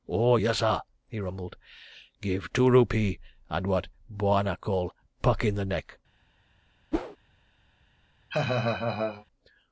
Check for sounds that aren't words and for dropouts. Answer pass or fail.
fail